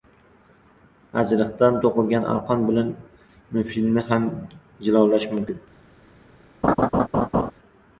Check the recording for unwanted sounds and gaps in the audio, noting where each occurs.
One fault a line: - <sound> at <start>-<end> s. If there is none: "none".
- laugh at 6.6-7.5 s